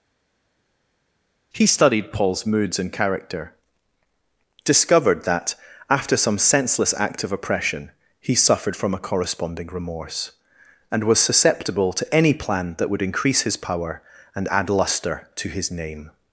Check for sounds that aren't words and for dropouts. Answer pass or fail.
pass